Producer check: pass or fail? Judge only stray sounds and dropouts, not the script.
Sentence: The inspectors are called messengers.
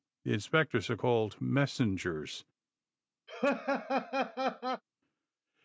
fail